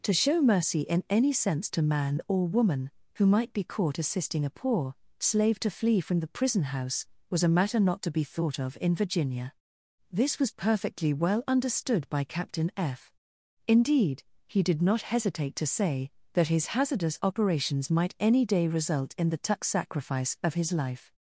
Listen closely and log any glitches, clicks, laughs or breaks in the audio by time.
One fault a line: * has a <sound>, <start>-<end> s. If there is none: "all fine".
all fine